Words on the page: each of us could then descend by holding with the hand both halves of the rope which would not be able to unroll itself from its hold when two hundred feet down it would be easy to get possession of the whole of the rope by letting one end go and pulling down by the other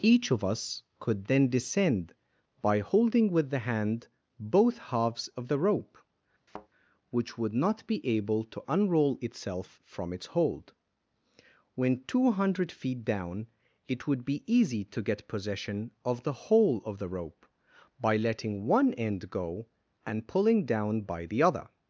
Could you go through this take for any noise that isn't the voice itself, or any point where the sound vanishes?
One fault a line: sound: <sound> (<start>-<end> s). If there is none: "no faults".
sound: thud (6.5-6.7 s)